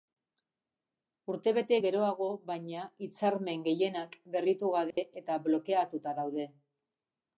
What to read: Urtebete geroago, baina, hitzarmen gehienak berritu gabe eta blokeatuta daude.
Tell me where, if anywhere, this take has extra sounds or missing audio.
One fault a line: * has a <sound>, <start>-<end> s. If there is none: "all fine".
* has a dropout, 4.9-5.0 s